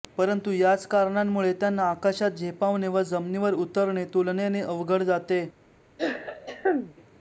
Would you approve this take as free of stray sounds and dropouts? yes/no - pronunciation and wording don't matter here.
no